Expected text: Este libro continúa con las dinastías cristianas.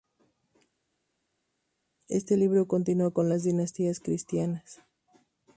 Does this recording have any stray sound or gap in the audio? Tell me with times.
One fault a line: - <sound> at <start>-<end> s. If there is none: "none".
none